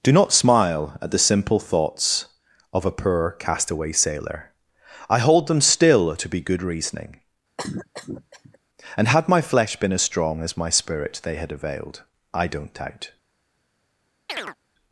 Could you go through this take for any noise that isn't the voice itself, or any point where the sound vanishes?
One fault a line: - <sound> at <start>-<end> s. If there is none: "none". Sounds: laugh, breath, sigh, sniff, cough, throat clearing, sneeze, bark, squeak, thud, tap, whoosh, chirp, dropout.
- cough at 7.6-8.6 s
- chirp at 14.3-14.6 s